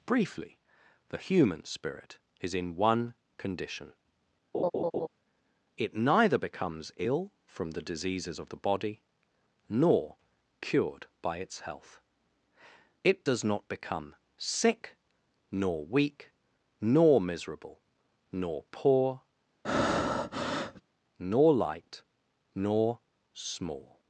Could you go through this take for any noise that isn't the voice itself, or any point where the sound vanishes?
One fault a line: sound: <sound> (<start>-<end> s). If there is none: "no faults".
sound: laugh (4.5-5.1 s)
sound: breath (19.6-20.8 s)